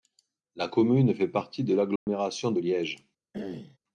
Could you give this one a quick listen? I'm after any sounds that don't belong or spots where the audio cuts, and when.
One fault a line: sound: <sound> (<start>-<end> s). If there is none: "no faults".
sound: dropout (2.0-2.1 s)
sound: throat clearing (3.3-3.8 s)